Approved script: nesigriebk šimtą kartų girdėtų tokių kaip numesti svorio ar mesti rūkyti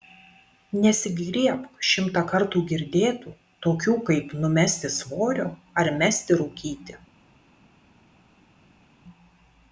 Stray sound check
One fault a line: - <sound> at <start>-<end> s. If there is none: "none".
none